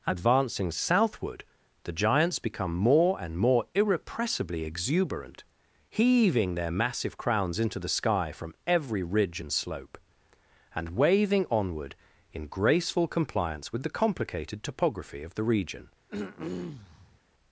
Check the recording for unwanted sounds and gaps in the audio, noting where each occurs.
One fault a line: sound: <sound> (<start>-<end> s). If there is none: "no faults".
sound: throat clearing (16.1-17.2 s)